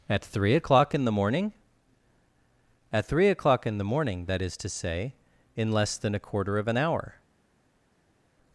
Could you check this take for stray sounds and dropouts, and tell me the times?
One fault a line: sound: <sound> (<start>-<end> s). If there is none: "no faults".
no faults